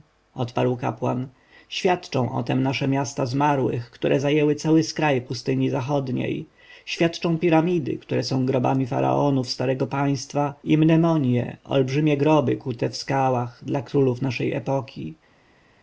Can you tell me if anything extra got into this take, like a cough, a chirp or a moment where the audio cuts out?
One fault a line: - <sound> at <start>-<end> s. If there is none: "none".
none